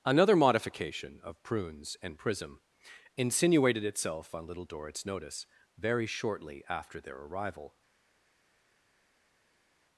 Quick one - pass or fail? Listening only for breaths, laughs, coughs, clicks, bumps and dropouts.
pass